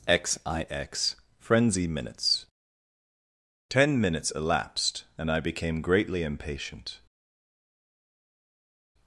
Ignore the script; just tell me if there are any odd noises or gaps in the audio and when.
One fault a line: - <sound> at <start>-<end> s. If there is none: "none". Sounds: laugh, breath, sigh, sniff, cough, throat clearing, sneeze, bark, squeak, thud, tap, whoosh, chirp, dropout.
none